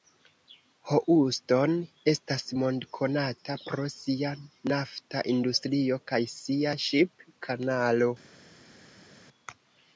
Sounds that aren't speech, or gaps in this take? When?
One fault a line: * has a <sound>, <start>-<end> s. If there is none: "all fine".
all fine